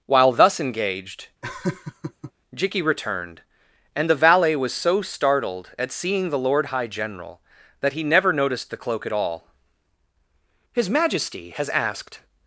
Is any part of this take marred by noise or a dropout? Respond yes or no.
yes